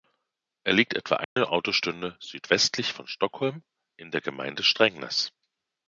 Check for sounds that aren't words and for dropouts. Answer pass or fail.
fail